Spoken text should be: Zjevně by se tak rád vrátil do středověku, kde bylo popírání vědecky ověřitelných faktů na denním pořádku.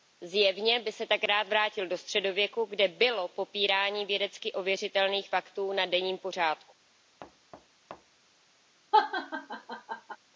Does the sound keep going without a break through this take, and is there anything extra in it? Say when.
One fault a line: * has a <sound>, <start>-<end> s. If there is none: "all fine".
* has a thud, 7.2-8.3 s
* has a laugh, 8.9-10.2 s